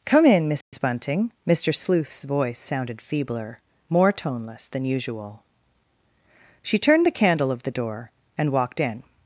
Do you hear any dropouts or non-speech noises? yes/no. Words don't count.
yes